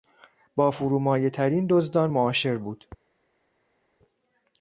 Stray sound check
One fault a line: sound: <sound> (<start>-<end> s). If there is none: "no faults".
no faults